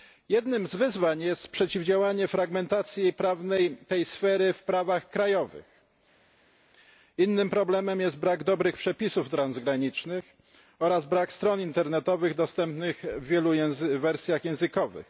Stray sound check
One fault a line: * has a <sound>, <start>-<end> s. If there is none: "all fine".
all fine